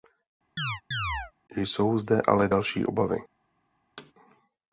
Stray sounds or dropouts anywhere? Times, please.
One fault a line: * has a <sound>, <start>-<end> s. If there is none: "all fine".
* has a chirp, 0.6-1.3 s
* has a thud, 4.0-4.1 s